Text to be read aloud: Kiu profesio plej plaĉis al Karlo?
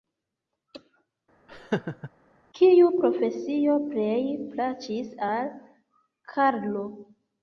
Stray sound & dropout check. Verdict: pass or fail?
fail